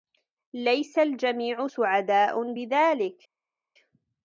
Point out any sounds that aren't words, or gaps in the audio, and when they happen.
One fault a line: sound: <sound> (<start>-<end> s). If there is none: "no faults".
no faults